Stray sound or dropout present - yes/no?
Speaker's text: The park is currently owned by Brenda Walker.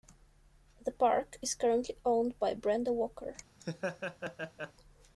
yes